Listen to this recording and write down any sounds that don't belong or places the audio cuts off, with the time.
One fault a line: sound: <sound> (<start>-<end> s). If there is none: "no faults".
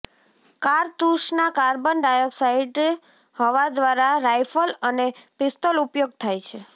no faults